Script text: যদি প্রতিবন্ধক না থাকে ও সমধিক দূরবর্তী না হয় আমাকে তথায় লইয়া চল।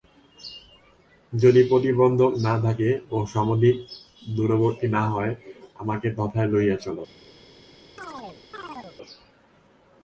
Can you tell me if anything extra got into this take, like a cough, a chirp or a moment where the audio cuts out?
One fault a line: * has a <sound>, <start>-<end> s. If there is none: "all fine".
* has a chirp, 8.0-9.0 s